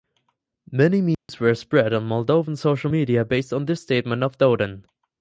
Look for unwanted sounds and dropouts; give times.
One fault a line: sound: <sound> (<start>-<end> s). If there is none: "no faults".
sound: dropout (1.1-1.3 s)